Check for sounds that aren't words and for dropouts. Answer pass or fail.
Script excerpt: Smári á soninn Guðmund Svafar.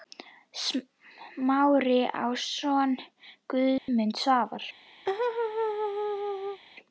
fail